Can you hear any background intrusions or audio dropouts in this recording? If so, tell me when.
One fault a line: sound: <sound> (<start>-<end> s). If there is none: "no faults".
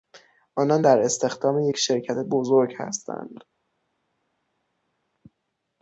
no faults